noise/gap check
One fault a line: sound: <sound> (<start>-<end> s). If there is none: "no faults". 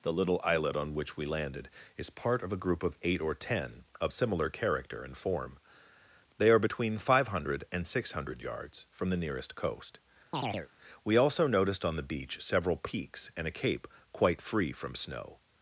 sound: chirp (10.3-10.7 s)